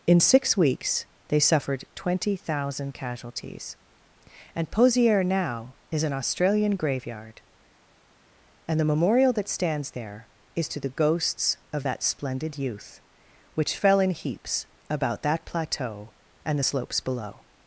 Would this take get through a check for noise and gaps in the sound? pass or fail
pass